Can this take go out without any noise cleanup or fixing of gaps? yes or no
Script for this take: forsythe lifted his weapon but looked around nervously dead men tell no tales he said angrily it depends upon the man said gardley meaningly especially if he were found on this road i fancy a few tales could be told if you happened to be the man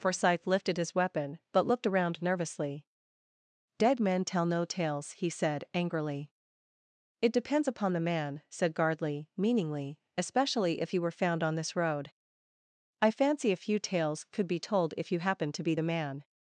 yes